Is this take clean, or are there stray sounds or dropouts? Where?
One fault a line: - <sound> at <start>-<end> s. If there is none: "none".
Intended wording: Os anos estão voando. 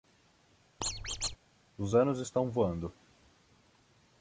- squeak at 0.8-1.4 s